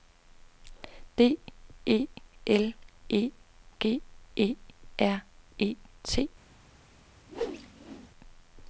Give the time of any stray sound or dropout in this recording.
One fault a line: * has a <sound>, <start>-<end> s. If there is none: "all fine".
* has a whoosh, 7.3-8.1 s